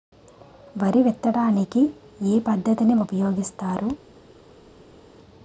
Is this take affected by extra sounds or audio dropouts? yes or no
no